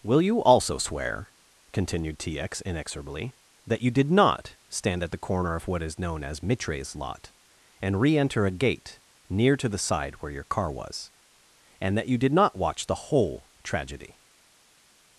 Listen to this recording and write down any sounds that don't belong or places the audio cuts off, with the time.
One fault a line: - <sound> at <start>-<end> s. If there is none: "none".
none